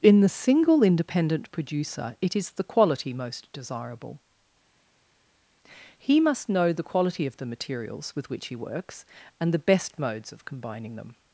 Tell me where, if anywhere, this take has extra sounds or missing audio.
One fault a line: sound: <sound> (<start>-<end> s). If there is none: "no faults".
no faults